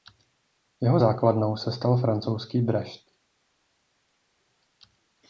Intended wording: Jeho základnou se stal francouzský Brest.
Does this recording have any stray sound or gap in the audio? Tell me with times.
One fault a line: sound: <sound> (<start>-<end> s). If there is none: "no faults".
no faults